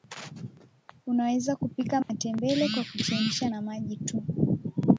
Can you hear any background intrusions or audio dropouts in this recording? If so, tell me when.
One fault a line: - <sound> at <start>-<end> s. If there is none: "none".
- dropout at 2.0-2.1 s